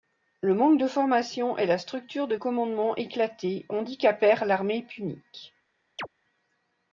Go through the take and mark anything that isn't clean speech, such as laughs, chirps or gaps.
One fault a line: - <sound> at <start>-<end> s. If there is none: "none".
- chirp at 6.0-6.1 s